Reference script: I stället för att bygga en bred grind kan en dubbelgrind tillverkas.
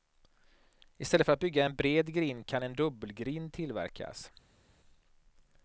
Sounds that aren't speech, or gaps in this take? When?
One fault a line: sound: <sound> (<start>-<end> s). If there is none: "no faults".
no faults